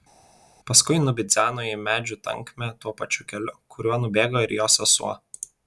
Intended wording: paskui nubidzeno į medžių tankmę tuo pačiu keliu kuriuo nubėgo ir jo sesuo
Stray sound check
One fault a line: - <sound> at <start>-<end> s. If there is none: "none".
none